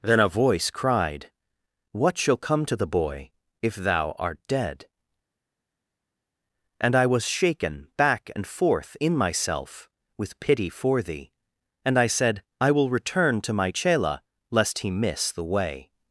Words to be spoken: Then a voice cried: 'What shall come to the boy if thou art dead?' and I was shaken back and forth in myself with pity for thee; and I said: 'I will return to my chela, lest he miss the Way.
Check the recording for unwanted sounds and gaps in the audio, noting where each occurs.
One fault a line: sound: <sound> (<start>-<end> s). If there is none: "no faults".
no faults